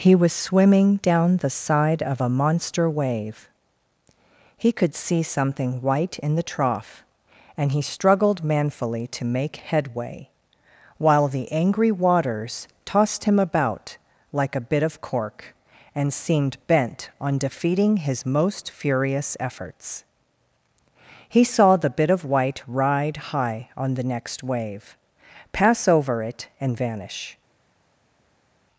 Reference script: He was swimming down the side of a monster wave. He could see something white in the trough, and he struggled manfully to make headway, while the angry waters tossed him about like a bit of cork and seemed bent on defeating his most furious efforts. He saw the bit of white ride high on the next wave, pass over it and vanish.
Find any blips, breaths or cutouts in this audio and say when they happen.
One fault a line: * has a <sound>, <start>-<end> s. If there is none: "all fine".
all fine